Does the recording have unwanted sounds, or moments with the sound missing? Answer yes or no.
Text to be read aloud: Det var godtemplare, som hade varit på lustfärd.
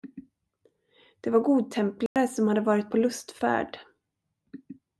yes